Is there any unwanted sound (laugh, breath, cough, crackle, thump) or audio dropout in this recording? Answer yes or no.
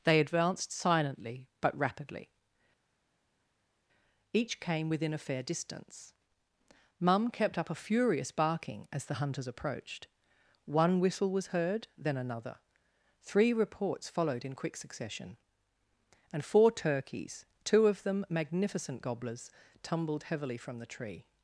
no